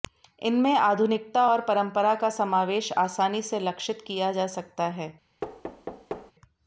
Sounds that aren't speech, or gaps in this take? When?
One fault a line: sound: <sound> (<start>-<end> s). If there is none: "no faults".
sound: thud (5.4-6.3 s)